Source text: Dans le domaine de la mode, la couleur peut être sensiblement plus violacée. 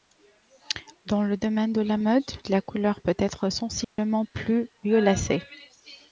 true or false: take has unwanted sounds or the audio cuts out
true